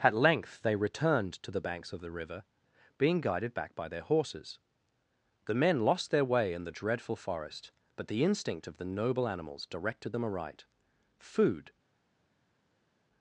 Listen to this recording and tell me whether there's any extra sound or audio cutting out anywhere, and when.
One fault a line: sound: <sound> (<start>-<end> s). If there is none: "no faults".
no faults